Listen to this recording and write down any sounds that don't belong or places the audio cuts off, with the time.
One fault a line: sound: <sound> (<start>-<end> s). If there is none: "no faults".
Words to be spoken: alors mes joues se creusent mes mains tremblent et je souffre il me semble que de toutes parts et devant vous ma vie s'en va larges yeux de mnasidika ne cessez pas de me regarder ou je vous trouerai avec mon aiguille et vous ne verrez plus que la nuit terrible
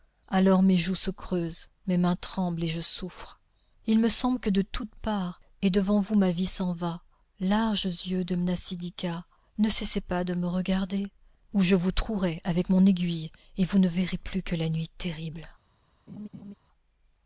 sound: laugh (16.1-16.5 s)